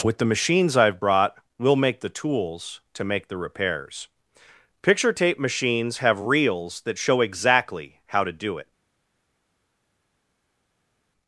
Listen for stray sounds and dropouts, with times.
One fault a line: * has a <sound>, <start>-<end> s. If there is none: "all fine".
all fine